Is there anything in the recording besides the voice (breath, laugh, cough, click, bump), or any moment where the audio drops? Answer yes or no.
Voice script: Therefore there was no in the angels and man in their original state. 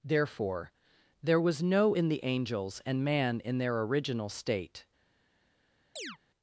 yes